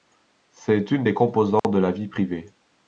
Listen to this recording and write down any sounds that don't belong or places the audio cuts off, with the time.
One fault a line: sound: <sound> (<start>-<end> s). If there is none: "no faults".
sound: dropout (1.6-1.6 s)